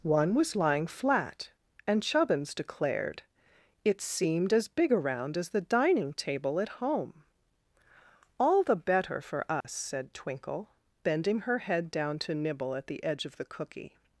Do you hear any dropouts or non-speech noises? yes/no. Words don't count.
yes